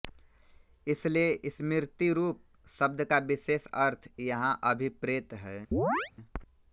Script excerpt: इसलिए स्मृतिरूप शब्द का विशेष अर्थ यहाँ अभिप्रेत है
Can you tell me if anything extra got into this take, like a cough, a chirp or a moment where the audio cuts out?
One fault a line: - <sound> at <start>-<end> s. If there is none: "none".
- chirp at 5.7-6.1 s